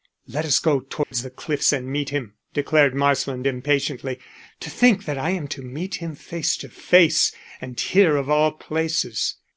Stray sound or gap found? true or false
true